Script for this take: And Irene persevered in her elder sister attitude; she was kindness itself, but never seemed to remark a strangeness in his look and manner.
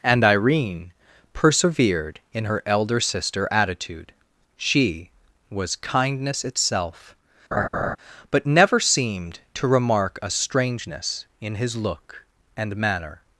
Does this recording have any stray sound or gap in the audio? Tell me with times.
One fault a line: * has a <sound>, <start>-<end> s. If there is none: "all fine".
* has a laugh, 7.5-8.0 s